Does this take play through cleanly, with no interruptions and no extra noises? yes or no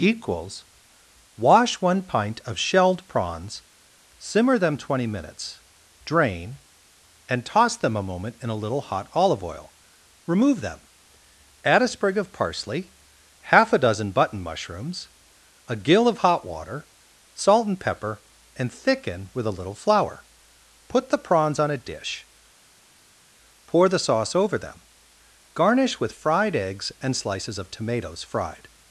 yes